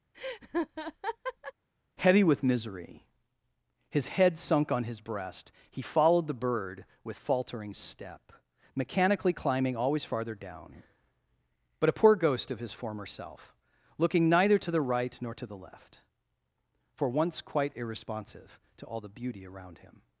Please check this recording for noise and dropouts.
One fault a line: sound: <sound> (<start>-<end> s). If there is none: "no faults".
sound: laugh (0.1-1.5 s)